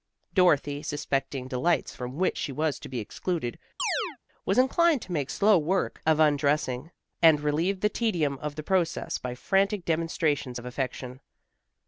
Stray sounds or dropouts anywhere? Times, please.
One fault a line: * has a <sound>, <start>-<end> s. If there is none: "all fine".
* has a chirp, 3.8-4.2 s